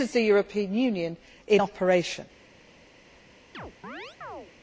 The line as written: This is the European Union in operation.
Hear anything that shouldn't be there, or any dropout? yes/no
yes